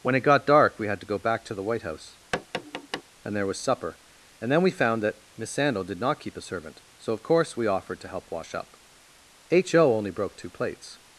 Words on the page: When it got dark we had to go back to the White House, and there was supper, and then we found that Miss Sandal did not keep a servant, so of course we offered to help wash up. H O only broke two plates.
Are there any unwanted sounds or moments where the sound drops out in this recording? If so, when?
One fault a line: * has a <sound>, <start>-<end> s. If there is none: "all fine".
* has a tap, 2.3-3.0 s